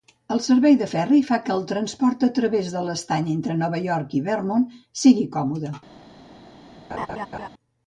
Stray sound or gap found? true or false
true